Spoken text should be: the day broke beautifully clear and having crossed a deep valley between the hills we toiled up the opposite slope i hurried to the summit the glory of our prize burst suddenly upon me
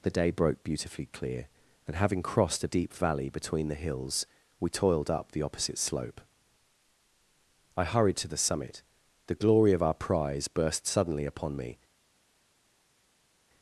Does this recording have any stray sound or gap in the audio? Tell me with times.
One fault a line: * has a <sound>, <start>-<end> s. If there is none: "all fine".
all fine